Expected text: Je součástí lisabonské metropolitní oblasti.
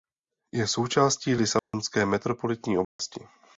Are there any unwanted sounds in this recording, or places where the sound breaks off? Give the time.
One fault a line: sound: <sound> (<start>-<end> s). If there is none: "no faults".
sound: dropout (1.6-1.7 s)
sound: dropout (2.8-3.0 s)